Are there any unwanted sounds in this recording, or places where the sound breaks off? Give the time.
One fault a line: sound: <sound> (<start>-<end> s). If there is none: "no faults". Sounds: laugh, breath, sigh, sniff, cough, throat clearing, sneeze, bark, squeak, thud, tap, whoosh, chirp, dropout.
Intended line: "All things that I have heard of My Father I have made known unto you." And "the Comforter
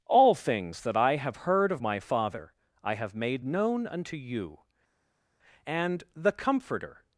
no faults